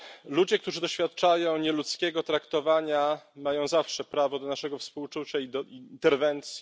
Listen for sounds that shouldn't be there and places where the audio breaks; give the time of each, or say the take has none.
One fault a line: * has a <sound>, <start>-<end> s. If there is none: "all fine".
all fine